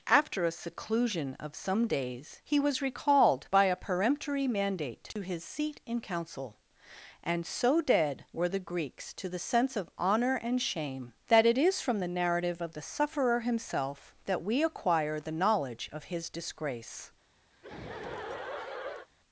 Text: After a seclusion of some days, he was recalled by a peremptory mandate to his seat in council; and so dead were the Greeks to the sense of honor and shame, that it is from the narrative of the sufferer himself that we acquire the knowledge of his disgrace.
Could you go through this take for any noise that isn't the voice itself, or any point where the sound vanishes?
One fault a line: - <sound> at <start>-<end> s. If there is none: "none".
- dropout at 5.1-5.2 s
- laugh at 17.5-19.1 s